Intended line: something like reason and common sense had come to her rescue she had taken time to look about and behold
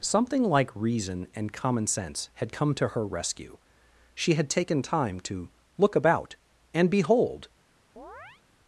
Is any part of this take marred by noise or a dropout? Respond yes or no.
yes